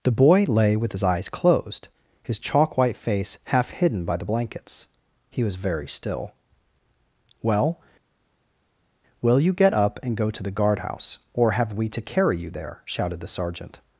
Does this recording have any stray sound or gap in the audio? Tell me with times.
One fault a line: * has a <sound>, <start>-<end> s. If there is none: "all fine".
all fine